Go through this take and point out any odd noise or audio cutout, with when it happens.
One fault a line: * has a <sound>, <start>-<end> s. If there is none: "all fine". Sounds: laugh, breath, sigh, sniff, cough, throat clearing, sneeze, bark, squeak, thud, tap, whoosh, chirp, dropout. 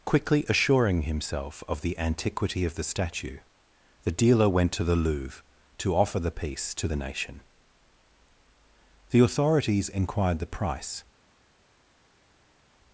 all fine